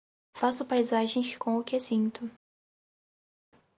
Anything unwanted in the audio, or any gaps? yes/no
no